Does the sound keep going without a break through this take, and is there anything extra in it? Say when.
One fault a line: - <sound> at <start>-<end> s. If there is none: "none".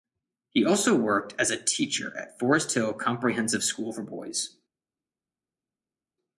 none